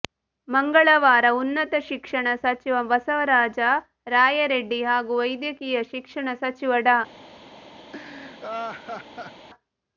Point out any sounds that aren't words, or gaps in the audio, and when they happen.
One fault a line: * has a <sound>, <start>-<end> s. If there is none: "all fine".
* has a laugh, 7.9-9.5 s